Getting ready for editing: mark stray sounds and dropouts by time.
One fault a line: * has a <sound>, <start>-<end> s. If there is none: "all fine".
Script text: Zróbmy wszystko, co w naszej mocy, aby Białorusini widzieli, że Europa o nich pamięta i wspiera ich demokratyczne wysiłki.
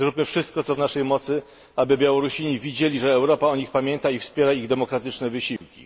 * has a dropout, 5.6-5.6 s